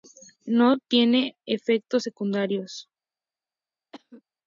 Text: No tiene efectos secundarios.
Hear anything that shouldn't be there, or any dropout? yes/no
yes